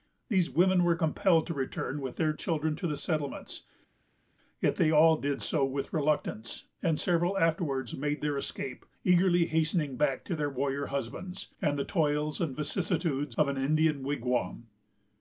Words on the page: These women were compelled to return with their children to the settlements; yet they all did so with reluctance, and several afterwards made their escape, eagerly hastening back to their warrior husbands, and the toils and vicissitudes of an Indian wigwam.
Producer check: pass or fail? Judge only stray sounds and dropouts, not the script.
pass